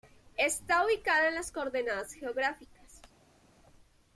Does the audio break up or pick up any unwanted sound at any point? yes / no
no